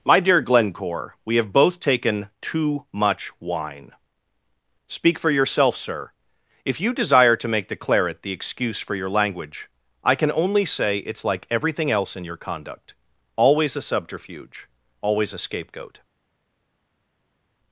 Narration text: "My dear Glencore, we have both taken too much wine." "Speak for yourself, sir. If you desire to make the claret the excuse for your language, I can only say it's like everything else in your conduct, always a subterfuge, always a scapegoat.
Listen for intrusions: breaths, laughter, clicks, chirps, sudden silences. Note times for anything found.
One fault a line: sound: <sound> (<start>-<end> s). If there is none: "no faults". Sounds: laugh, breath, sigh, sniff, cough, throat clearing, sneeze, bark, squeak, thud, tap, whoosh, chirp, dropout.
no faults